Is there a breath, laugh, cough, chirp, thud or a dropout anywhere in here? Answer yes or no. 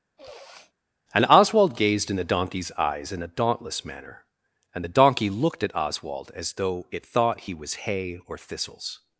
yes